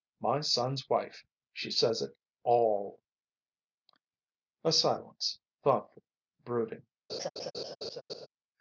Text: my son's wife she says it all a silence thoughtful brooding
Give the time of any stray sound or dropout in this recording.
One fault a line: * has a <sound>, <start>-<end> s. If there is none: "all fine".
* has a laugh, 7.1-8.3 s